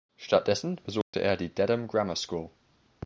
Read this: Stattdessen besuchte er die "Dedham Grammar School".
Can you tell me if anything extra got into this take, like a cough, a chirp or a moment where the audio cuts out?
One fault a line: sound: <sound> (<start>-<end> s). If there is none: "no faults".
sound: dropout (1.0-1.1 s)